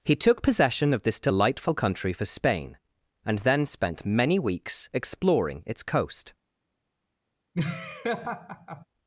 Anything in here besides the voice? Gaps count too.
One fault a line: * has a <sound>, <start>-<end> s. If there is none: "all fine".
* has a laugh, 7.5-8.9 s